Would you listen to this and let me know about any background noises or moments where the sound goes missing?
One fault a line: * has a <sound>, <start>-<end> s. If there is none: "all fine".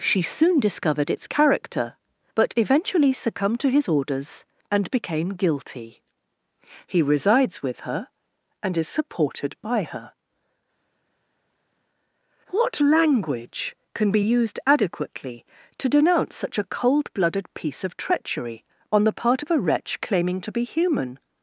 all fine